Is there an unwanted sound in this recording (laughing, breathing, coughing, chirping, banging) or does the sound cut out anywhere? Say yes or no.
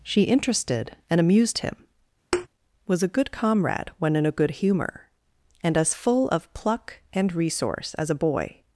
yes